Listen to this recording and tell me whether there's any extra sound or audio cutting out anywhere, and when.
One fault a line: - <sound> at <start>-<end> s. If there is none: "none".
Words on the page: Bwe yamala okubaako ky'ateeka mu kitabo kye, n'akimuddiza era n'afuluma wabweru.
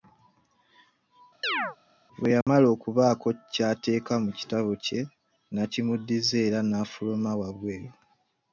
- chirp at 1.4-1.8 s
- dropout at 2.4-2.5 s